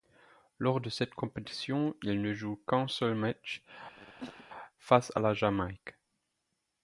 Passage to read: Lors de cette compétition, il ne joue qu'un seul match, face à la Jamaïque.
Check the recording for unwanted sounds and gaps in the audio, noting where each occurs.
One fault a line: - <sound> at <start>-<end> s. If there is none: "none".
- cough at 4.0-4.5 s